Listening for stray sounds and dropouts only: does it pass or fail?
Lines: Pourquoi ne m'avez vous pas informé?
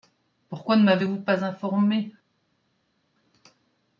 pass